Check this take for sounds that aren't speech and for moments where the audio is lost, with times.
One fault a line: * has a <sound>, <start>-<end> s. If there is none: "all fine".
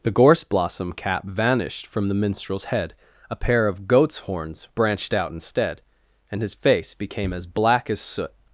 all fine